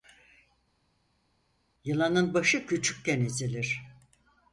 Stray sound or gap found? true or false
false